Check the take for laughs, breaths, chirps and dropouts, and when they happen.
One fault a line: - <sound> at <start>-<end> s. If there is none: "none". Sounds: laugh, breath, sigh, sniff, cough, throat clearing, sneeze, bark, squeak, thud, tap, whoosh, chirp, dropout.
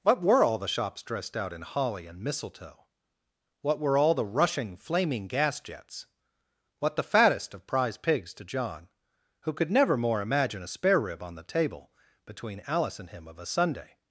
none